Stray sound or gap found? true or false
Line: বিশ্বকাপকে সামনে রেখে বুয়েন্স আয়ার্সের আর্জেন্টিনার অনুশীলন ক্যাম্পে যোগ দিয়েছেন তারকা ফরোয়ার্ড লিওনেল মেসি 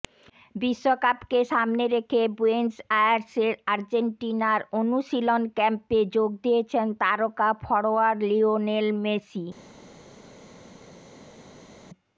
false